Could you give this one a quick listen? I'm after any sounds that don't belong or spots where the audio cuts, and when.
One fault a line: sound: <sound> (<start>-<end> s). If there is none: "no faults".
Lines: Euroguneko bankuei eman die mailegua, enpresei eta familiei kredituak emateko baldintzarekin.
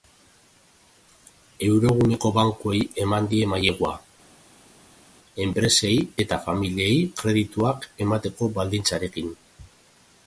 no faults